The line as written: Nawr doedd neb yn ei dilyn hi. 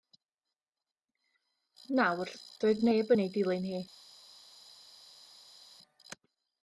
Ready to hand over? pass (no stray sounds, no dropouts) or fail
pass